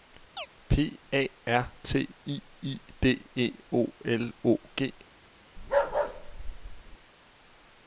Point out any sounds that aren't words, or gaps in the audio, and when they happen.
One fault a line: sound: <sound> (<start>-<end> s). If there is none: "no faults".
sound: chirp (0.4-0.5 s)
sound: bark (5.6-7.0 s)